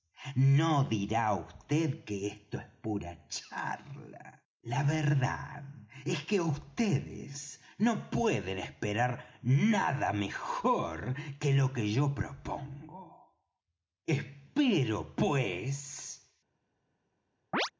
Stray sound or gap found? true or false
true